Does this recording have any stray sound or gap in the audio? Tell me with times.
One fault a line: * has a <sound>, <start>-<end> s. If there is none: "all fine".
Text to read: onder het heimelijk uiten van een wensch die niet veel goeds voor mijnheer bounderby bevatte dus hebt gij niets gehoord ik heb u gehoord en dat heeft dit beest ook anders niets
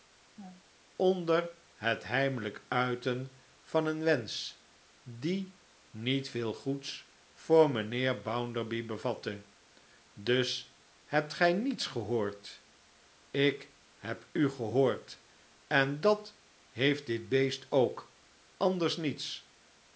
* has a laugh, 0.4-0.6 s